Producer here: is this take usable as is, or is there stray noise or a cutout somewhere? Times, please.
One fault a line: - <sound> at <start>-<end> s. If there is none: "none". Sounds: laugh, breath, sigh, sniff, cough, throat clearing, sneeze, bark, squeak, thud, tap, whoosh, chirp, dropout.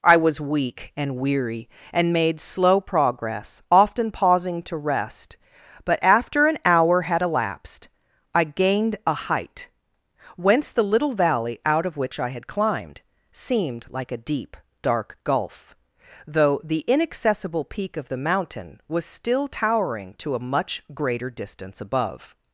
none